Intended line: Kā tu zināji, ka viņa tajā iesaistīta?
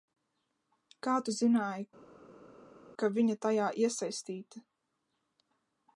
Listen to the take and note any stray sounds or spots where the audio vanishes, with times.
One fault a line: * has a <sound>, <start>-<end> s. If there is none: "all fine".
all fine